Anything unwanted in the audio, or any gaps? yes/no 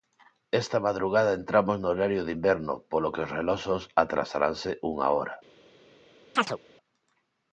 yes